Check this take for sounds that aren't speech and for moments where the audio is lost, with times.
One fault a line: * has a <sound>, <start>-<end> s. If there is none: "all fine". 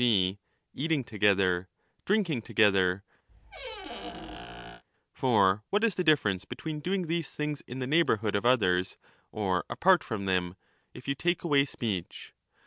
* has a squeak, 3.3-4.8 s